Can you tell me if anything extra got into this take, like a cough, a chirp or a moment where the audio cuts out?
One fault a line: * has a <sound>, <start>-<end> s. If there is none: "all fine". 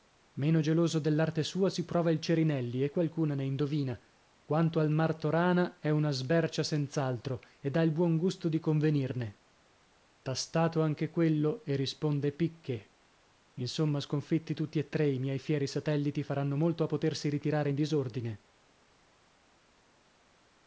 all fine